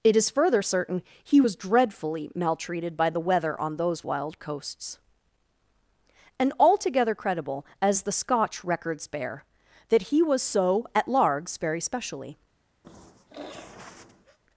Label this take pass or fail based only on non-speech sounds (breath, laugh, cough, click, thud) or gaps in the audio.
fail